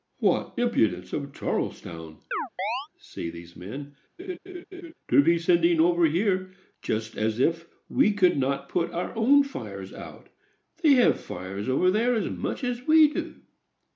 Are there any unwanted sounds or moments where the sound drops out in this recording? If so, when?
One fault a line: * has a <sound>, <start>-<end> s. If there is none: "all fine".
* has a chirp, 2.3-2.9 s
* has a laugh, 4.2-4.9 s